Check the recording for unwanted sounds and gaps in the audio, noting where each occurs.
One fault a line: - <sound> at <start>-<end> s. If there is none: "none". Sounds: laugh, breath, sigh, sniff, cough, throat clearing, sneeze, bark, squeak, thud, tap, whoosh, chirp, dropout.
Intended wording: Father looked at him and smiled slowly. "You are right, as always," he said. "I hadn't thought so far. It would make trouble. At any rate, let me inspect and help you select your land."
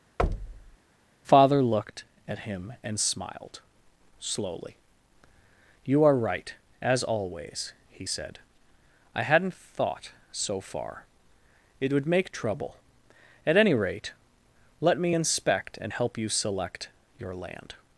- thud at 0.2-0.8 s